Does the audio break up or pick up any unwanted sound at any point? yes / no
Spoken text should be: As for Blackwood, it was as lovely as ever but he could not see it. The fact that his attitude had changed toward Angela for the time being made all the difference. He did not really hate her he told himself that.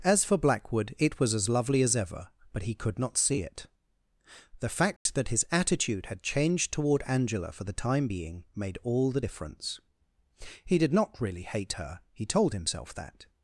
yes